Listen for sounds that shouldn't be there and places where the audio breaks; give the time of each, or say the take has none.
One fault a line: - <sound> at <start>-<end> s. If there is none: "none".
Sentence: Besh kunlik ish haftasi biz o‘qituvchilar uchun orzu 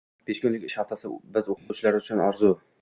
- dropout at 1.6-1.7 s